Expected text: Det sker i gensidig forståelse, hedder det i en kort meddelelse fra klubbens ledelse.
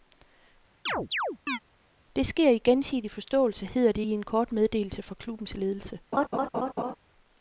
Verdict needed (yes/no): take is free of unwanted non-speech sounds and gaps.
no